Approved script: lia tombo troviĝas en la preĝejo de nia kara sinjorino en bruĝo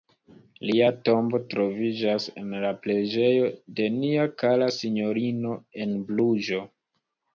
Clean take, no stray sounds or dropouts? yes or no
yes